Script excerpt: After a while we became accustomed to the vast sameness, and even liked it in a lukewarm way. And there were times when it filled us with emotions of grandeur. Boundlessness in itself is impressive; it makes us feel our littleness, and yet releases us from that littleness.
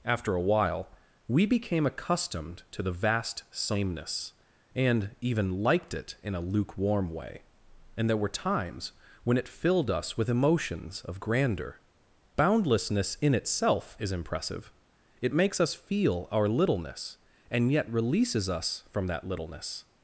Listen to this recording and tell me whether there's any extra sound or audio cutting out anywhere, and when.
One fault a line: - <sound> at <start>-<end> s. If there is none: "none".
none